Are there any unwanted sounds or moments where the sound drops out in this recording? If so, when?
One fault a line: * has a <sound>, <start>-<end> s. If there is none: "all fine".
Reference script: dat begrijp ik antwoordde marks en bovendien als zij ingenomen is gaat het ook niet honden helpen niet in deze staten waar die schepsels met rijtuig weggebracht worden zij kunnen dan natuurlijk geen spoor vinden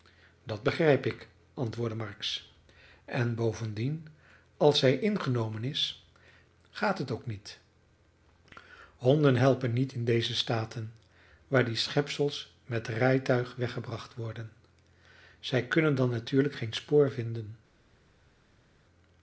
all fine